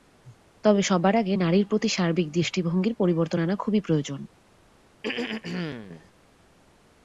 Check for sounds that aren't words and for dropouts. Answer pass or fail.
fail